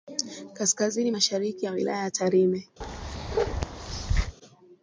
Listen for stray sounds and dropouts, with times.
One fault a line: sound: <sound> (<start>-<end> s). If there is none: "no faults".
sound: bark (2.8-4.4 s)